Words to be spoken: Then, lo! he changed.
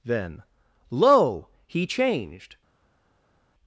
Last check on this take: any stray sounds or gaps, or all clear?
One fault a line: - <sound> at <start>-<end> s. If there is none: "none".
none